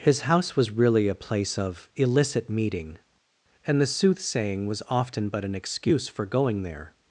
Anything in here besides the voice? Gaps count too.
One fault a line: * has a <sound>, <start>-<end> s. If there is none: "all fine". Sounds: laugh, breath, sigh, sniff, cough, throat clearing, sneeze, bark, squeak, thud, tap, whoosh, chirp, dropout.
all fine